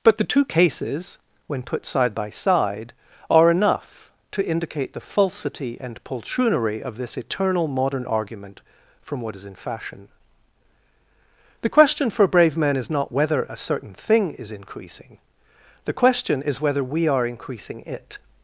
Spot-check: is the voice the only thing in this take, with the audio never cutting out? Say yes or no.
yes